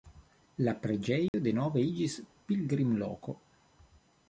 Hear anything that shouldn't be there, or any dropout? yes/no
yes